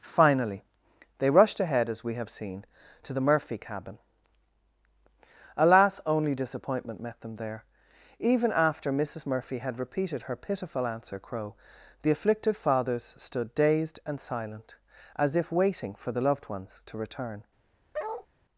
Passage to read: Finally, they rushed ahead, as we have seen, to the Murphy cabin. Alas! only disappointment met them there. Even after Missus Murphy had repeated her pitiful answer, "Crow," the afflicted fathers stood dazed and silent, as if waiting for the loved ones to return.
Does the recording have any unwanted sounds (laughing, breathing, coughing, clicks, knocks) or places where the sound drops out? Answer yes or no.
yes